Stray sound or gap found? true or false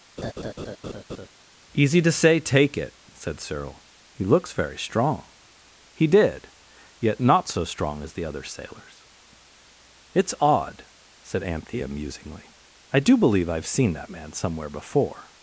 true